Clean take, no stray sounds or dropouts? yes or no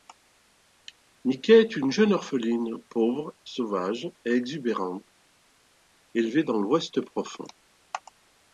yes